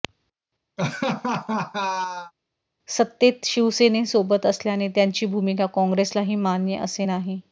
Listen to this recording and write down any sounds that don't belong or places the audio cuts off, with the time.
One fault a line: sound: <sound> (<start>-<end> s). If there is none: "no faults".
sound: laugh (0.8-2.3 s)